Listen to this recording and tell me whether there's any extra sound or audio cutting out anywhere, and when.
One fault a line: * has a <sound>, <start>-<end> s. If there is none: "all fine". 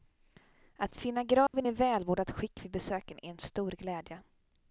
* has a dropout, 1.5-1.5 s